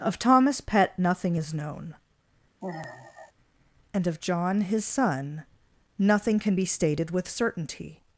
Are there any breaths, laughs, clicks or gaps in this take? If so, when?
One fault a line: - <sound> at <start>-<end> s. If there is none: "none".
- sigh at 2.6-3.3 s